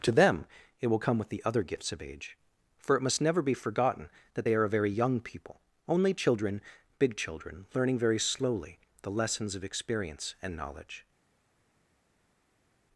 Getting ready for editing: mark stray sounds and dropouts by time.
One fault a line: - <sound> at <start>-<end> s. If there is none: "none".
none